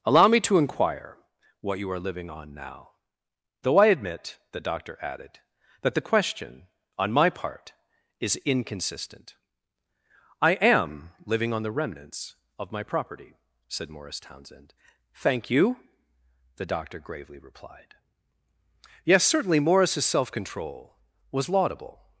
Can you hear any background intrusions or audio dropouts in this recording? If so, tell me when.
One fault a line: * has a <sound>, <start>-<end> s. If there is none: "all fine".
all fine